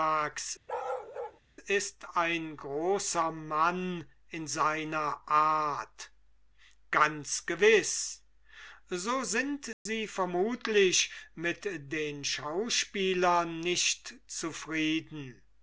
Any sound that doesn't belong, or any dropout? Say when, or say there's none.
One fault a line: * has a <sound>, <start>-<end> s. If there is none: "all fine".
* has a bark, 0.7-1.4 s
* has a dropout, 9.7-9.9 s